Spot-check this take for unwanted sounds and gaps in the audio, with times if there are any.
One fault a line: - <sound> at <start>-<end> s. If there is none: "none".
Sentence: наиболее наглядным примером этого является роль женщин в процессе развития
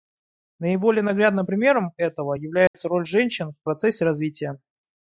- dropout at 2.7-2.7 s